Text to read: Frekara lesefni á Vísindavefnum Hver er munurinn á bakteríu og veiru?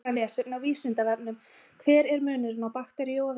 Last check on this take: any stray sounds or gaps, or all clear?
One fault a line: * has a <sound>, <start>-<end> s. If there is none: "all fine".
all fine